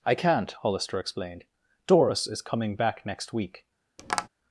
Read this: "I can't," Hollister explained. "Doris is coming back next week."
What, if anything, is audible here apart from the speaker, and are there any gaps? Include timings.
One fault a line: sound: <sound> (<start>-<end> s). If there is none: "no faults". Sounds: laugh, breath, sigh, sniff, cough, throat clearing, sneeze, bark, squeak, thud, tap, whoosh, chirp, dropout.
sound: tap (4.0-4.3 s)